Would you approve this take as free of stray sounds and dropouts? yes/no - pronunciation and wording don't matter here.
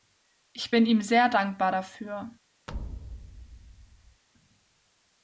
no